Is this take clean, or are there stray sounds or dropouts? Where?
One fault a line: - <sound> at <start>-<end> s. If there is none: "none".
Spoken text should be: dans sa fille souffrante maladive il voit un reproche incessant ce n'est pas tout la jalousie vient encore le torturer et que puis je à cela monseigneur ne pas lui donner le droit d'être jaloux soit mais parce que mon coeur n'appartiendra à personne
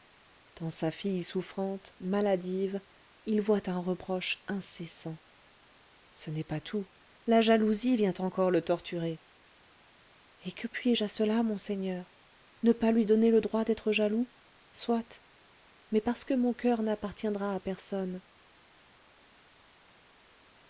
none